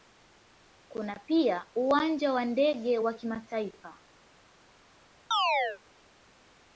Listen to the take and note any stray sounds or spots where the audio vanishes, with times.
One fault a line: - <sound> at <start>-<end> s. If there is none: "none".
- chirp at 5.3-5.8 s